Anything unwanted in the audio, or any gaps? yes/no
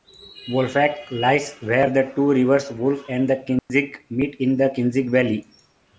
yes